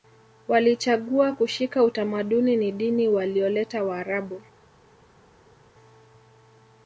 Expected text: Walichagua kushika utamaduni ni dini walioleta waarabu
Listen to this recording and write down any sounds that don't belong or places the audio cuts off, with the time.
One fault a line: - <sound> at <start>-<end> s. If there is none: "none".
none